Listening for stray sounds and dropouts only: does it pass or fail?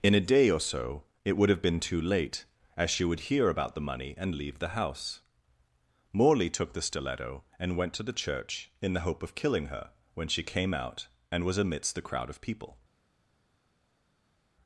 pass